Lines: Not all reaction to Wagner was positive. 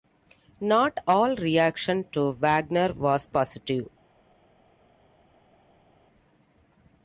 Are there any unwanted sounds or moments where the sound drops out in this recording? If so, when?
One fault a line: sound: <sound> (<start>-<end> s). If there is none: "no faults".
no faults